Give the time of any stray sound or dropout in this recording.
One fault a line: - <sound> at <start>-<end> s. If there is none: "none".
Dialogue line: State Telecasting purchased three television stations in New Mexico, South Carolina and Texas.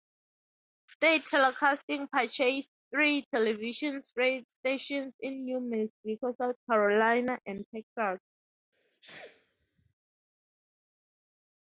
- sneeze at 8.7-9.9 s